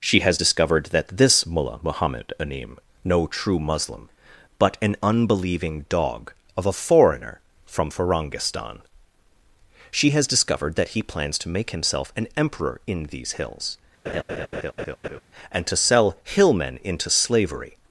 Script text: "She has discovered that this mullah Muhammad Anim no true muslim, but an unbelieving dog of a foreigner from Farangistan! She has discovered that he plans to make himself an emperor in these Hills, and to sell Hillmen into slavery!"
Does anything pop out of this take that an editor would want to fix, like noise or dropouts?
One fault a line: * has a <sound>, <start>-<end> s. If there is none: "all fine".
* has a laugh, 14.1-15.2 s